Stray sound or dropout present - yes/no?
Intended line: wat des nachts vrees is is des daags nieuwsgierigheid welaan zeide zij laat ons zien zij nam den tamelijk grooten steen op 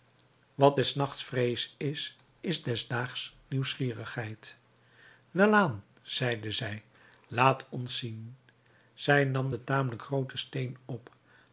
no